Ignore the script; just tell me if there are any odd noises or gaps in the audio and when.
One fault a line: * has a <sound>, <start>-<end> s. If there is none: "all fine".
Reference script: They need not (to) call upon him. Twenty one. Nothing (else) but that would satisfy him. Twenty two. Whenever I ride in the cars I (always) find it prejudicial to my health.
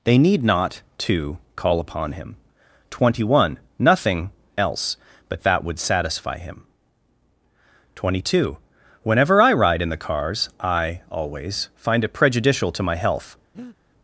* has a breath, 13.5-13.8 s